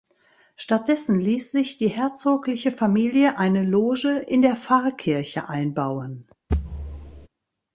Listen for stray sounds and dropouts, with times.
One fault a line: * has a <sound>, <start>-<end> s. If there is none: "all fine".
* has a thud, 6.5-7.3 s